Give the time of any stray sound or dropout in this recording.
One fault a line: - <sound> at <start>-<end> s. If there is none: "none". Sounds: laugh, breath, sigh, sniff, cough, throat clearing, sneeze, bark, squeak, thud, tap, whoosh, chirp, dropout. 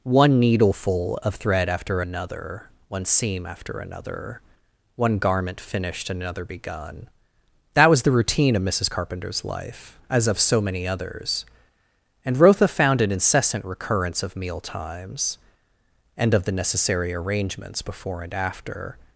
none